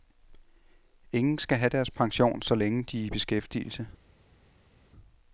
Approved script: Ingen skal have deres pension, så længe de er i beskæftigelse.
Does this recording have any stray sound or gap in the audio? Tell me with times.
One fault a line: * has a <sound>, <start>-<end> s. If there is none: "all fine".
all fine